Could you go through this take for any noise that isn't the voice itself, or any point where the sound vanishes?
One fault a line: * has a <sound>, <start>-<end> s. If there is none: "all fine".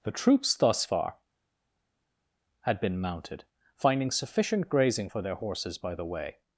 all fine